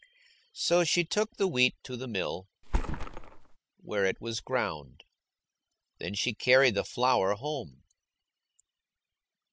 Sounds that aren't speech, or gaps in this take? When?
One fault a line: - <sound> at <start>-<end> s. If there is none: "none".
- thud at 2.6-3.6 s